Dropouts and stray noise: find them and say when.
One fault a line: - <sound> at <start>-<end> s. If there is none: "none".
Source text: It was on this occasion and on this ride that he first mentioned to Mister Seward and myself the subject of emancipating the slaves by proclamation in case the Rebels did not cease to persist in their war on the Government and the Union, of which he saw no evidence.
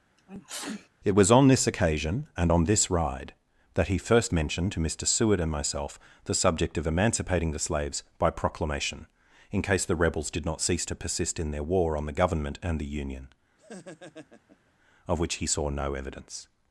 - sneeze at 0.2-0.9 s
- laugh at 13.6-14.7 s